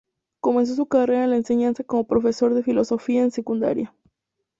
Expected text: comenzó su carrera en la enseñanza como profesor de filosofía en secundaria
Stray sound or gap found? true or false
false